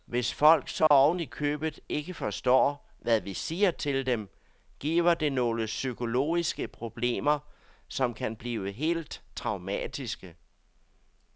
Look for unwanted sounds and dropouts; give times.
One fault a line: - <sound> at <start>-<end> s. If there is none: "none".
- dropout at 0.9-0.9 s